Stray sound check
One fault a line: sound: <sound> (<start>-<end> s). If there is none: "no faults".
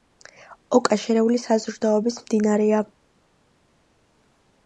no faults